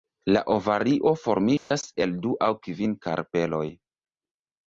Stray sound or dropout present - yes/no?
yes